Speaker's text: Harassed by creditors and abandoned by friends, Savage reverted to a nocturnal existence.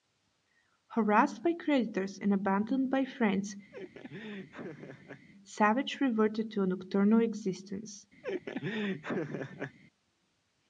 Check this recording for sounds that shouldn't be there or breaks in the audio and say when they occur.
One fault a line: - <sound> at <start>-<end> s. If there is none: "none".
- laugh at 3.7-5.3 s
- laugh at 8.2-9.8 s